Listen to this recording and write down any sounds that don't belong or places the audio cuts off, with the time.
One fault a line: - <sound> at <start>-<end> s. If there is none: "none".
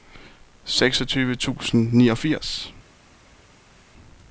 none